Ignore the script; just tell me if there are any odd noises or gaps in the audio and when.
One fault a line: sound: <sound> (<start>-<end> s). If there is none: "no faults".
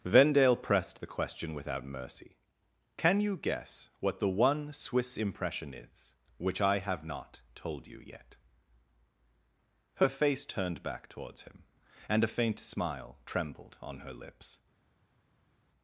no faults